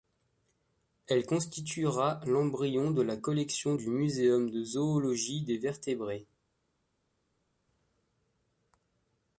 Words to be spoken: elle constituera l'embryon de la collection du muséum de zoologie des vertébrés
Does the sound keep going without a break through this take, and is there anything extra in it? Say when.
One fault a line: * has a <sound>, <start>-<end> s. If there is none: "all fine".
all fine